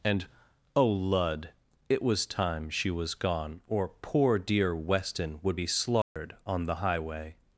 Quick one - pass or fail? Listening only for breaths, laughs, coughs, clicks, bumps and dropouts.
fail